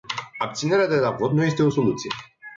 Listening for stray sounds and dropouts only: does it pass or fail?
pass